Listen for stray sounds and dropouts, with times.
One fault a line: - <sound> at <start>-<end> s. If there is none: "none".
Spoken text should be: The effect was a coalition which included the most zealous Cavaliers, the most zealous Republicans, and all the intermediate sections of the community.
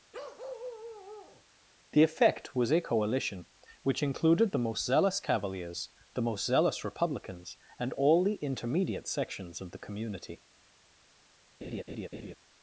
- bark at 0.1-1.4 s
- laugh at 11.6-12.4 s